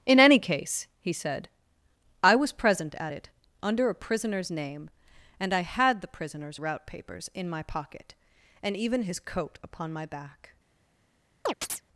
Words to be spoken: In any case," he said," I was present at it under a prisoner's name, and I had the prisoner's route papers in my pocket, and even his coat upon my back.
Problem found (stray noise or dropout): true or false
true